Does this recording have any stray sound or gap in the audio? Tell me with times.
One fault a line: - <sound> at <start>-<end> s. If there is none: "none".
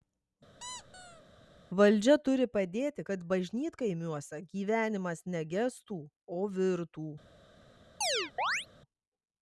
- squeak at 0.6-1.2 s
- chirp at 8.0-8.7 s